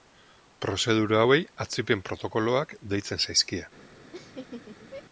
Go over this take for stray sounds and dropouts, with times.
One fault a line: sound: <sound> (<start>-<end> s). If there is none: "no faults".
sound: laugh (4.1-5.0 s)